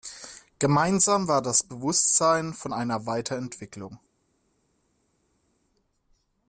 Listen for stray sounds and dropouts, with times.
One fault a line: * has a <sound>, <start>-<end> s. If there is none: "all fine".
all fine